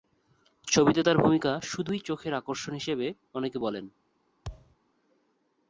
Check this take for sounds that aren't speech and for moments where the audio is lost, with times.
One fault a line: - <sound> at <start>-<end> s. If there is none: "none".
- thud at 4.4-4.8 s